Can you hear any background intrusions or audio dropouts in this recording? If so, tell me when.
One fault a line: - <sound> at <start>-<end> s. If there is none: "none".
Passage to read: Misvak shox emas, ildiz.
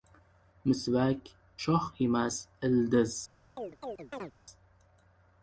- chirp at 3.6-4.3 s